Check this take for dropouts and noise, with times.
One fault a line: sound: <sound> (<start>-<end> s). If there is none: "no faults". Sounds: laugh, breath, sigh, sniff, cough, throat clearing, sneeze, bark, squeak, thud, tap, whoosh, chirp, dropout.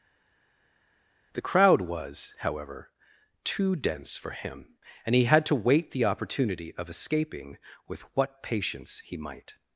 no faults